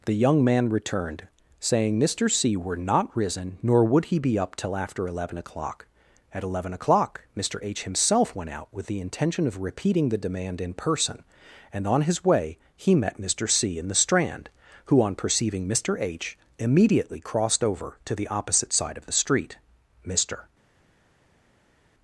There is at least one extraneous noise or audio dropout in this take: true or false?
false